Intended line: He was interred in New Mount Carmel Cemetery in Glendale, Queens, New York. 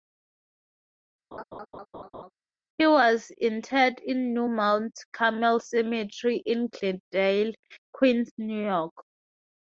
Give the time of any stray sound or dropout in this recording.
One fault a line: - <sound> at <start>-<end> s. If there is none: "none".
- laugh at 1.3-2.3 s